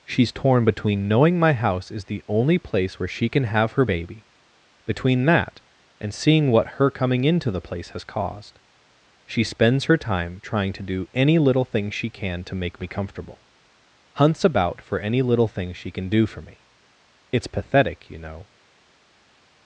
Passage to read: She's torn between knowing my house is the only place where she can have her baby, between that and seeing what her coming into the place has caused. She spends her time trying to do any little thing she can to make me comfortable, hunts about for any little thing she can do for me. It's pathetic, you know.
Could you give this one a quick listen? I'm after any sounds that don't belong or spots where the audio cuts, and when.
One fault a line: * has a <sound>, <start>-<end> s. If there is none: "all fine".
all fine